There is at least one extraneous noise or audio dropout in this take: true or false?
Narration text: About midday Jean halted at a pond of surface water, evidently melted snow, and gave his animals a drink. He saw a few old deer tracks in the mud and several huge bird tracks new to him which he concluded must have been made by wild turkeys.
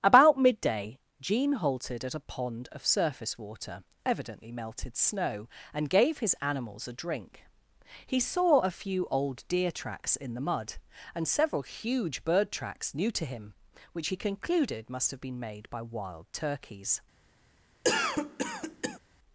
true